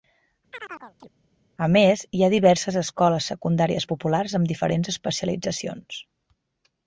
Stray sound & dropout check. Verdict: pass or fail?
fail